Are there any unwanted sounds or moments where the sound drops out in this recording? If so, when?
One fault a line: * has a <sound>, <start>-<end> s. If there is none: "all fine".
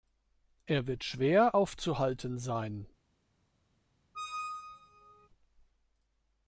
* has a squeak, 4.1-5.3 s